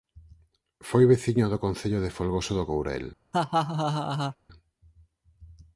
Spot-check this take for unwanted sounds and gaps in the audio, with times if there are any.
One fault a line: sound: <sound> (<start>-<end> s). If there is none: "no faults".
sound: laugh (3.3-4.4 s)